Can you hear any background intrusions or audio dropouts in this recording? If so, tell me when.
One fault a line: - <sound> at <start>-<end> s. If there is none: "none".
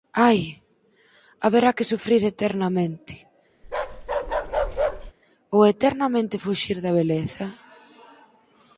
- bark at 3.6-5.1 s